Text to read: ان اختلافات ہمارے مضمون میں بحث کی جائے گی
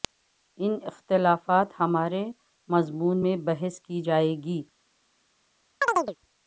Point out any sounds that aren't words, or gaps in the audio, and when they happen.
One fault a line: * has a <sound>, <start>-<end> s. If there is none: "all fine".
* has a chirp, 5.8-6.2 s